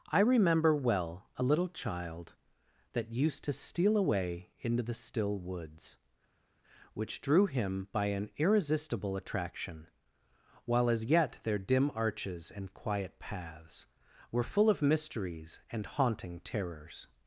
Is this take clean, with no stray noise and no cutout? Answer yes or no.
yes